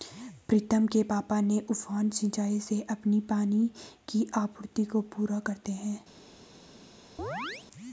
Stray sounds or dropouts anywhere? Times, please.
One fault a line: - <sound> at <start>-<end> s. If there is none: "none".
- chirp at 7.2-7.7 s